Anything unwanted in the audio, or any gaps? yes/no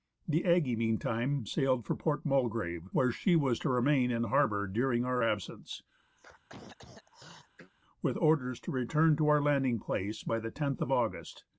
yes